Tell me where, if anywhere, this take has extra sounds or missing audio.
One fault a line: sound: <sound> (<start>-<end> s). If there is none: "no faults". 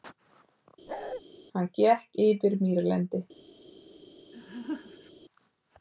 sound: bark (0.9-1.2 s)
sound: laugh (4.3-5.1 s)